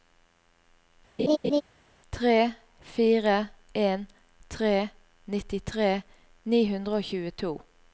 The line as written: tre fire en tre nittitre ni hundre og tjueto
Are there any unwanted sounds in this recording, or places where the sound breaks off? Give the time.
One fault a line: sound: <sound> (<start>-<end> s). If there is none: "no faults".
sound: laugh (1.2-1.6 s)